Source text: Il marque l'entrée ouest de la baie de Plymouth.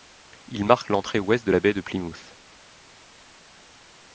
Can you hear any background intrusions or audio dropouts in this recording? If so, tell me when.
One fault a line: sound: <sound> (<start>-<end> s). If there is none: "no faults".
no faults